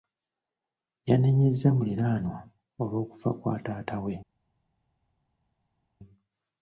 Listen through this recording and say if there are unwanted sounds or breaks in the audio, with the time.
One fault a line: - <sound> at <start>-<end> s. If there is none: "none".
none